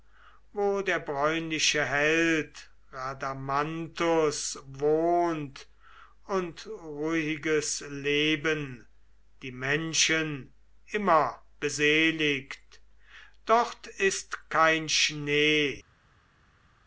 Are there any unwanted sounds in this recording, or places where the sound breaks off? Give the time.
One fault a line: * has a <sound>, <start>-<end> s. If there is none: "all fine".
all fine